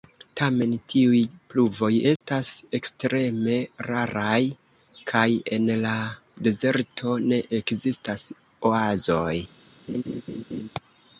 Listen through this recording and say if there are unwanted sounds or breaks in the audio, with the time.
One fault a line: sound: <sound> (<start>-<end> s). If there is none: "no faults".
sound: dropout (2.2-2.2 s)
sound: laugh (9.9-10.7 s)